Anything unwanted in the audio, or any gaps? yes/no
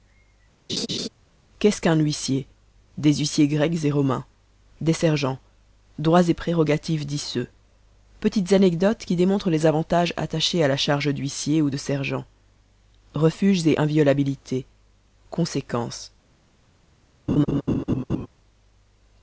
yes